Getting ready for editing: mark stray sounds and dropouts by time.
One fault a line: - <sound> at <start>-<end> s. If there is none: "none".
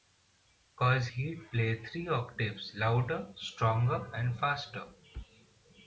none